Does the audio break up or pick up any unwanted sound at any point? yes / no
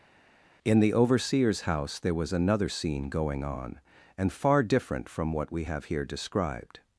no